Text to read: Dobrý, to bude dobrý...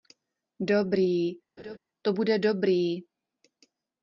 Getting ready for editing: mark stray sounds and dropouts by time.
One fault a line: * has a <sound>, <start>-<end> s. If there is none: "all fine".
* has a laugh, 1.6-1.8 s